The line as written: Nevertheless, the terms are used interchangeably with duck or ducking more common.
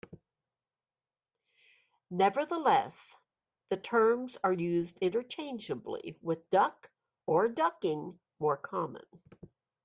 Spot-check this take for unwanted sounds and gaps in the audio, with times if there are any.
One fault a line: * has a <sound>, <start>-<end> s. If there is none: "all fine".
all fine